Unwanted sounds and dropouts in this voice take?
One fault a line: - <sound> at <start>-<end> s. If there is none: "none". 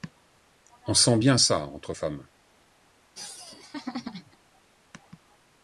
- laugh at 3.1-4.4 s